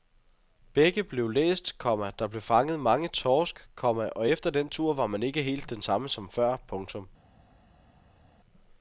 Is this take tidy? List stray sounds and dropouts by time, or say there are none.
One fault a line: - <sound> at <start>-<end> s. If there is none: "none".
none